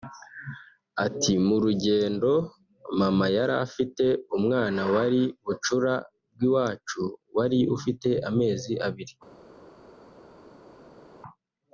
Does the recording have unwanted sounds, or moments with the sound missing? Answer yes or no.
no